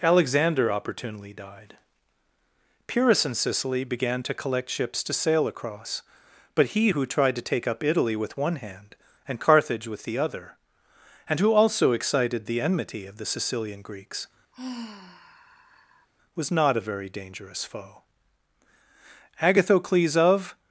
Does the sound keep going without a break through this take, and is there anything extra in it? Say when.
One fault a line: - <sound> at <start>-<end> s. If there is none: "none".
- sigh at 14.5-16.1 s